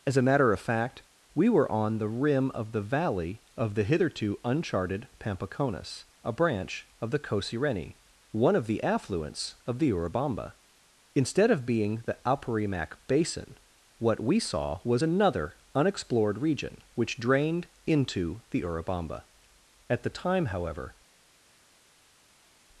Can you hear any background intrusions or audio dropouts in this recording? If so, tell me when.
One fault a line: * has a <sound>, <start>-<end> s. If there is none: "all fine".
all fine